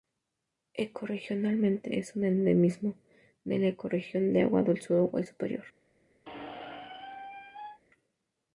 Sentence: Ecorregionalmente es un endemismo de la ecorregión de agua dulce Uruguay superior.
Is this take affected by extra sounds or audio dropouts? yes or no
yes